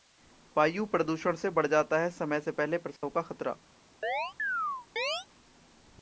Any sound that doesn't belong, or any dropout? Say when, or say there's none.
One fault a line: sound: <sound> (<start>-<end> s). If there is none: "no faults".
sound: dropout (3.0-3.0 s)
sound: chirp (4.0-5.3 s)